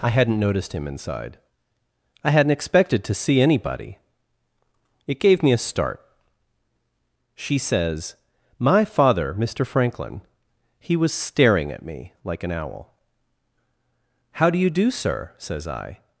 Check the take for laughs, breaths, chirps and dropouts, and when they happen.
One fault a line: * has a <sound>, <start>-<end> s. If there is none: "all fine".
all fine